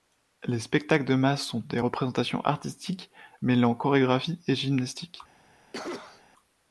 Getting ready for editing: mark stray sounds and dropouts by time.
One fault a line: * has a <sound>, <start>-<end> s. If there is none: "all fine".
* has a cough, 5.7-6.2 s